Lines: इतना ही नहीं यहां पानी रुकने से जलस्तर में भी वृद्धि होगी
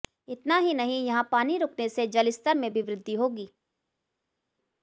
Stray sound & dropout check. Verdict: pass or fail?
pass